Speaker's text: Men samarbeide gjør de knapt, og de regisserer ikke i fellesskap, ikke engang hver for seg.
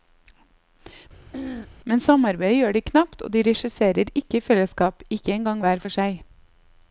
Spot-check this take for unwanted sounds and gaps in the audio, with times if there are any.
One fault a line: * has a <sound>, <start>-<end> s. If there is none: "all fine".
* has a throat clearing, 1.3-1.7 s